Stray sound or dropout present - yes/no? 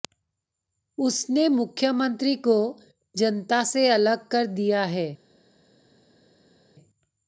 no